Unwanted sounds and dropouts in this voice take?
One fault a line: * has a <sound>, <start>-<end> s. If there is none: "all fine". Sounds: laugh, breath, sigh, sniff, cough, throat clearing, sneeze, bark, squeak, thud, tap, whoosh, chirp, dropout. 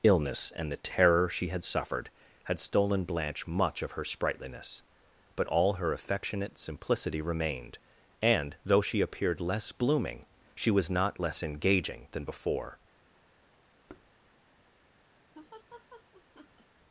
* has a thud, 13.9-14.1 s
* has a laugh, 15.3-16.7 s